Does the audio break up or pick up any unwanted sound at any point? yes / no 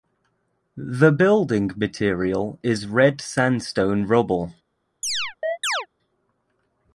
yes